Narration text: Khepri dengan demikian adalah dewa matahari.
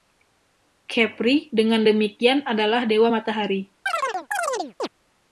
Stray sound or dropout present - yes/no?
yes